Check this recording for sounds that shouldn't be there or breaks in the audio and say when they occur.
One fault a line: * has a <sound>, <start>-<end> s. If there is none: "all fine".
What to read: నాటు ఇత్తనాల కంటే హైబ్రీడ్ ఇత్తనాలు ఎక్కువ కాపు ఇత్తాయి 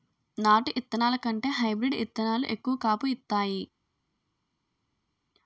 all fine